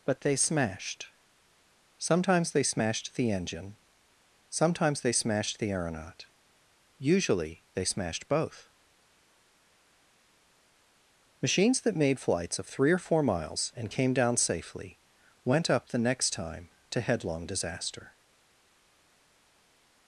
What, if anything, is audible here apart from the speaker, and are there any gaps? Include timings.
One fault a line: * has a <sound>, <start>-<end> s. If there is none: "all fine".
all fine